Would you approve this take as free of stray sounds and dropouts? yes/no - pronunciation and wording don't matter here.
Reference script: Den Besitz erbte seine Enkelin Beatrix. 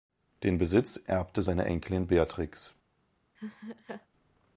no